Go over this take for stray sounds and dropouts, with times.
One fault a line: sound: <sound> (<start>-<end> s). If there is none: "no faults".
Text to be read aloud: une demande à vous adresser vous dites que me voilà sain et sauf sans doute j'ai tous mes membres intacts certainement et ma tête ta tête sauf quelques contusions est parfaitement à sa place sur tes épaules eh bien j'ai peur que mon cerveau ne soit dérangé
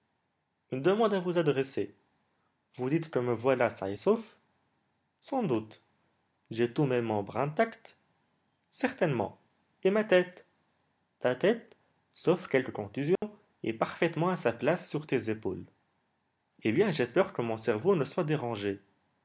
sound: dropout (13.2-13.2 s)